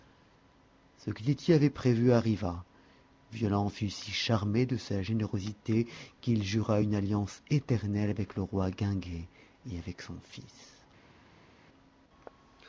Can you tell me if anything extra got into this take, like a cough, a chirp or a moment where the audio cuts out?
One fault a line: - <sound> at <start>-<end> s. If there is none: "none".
none